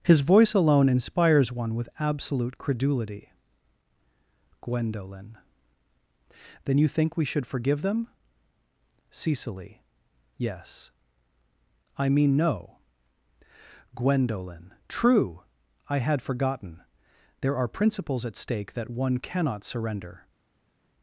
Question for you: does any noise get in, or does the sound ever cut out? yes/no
no